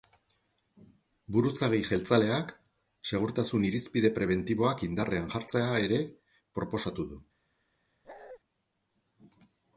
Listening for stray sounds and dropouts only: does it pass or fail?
fail